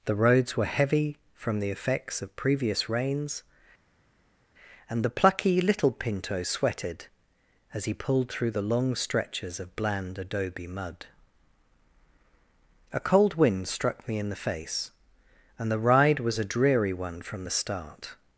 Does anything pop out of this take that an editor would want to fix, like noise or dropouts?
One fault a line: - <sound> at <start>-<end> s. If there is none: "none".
none